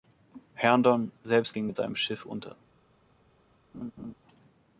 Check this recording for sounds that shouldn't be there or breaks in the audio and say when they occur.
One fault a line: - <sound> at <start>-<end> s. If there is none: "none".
- laugh at 3.7-4.1 s